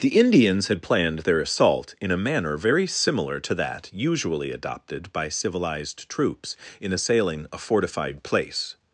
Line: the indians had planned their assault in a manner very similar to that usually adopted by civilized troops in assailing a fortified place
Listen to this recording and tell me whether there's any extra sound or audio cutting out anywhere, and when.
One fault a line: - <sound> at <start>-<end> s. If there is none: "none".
none